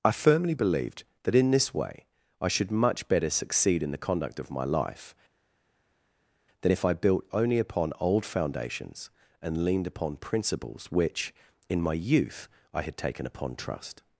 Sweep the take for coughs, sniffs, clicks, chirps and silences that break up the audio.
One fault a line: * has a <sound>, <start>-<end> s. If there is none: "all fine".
all fine